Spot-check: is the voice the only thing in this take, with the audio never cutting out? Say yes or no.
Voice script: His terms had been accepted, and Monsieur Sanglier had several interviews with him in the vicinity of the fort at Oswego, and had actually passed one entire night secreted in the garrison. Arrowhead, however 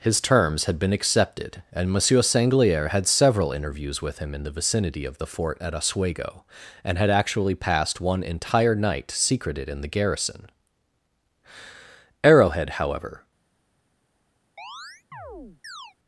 no